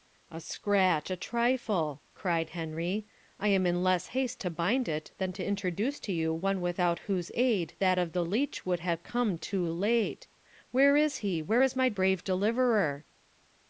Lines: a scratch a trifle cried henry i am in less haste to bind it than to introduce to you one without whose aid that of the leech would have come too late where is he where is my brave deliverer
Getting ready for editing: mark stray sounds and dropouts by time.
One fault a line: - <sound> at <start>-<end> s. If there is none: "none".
none